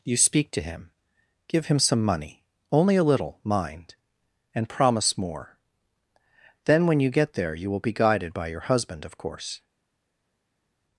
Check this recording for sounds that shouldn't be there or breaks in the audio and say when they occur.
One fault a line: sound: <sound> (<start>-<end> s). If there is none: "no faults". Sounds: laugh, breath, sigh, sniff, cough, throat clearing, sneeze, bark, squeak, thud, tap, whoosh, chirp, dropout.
no faults